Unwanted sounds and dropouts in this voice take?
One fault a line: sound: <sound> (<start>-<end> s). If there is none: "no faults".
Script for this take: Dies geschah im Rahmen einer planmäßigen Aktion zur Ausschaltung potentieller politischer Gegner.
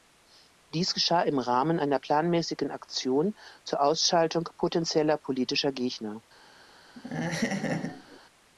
sound: laugh (7.0-8.2 s)